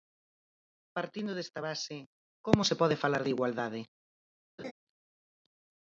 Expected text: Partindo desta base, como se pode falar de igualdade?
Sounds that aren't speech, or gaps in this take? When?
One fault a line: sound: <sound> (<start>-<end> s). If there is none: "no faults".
sound: laugh (4.6-4.7 s)